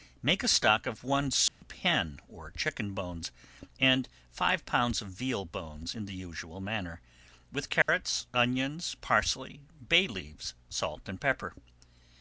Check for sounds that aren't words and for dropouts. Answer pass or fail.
fail